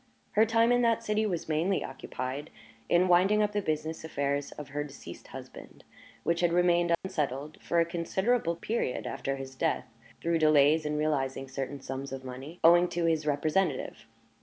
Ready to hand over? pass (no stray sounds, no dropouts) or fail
fail